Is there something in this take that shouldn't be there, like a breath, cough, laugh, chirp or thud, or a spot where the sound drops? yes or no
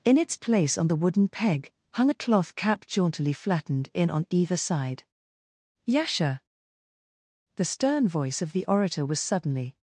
no